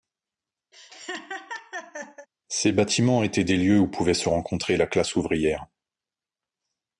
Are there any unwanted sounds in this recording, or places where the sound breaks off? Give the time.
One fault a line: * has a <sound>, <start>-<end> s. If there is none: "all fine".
* has a laugh, 0.7-2.3 s